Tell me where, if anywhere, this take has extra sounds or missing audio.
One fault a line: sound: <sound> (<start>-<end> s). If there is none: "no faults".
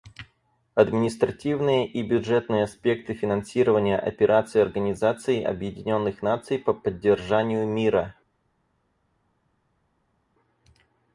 no faults